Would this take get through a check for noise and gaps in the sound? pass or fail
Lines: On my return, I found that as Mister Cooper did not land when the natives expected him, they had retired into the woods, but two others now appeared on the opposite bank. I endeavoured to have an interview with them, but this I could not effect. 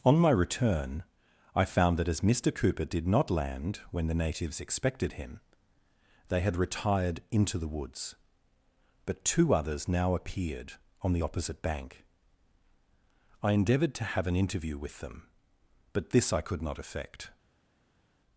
pass